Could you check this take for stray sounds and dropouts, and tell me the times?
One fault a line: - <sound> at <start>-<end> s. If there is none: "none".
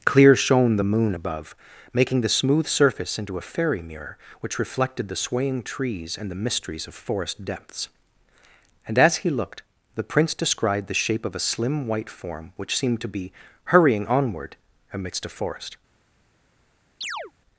- chirp at 17.0-17.3 s